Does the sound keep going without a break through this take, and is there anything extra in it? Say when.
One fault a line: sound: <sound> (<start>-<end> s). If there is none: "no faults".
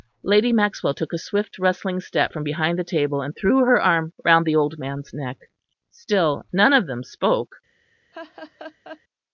sound: laugh (8.1-9.0 s)